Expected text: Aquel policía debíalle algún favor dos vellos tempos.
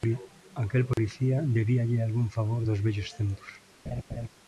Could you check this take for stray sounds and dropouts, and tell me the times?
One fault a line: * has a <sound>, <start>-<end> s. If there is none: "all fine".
* has a dropout, 0.9-1.0 s
* has a laugh, 3.9-4.3 s